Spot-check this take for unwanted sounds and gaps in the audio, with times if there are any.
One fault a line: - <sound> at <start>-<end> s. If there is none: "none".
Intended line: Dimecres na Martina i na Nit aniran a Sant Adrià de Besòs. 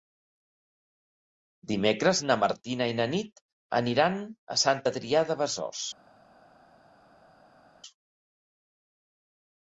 none